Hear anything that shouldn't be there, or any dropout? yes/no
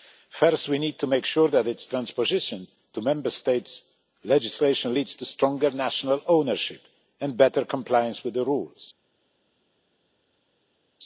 no